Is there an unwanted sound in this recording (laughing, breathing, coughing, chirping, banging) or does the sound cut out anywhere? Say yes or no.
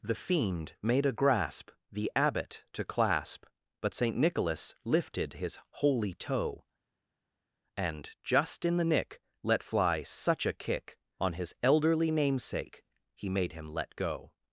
no